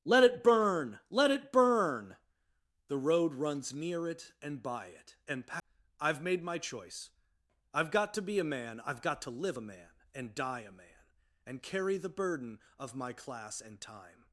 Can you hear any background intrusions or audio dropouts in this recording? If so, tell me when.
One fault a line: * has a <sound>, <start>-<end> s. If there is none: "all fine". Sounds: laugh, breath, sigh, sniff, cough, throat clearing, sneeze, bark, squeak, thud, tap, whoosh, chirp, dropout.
all fine